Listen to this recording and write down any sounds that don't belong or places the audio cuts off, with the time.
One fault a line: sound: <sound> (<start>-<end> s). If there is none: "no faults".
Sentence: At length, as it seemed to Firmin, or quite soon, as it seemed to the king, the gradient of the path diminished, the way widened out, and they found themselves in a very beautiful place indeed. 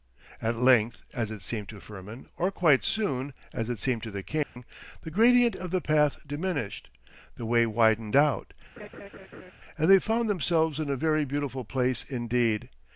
sound: dropout (4.4-4.6 s)
sound: laugh (8.8-9.5 s)